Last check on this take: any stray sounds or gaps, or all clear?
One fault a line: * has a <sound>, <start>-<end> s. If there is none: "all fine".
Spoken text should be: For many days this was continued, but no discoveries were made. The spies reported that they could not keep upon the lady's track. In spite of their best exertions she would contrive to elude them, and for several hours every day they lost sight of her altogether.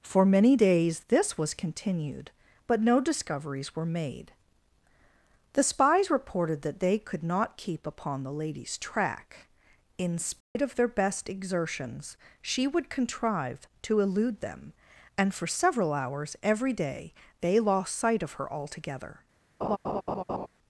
* has a dropout, 10.4-10.6 s
* has a laugh, 19.6-20.5 s